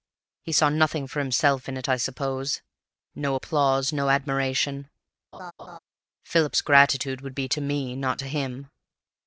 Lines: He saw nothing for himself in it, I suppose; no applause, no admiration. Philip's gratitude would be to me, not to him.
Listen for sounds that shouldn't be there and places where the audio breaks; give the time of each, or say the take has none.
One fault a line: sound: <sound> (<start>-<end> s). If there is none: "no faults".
sound: laugh (5.3-5.8 s)